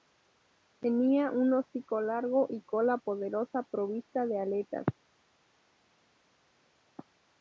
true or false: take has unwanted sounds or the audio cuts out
false